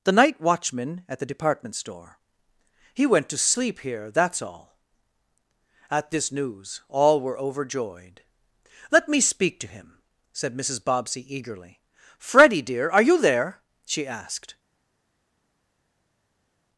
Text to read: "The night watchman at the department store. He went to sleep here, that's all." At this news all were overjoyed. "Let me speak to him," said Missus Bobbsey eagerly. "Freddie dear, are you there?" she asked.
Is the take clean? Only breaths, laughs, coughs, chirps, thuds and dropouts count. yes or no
yes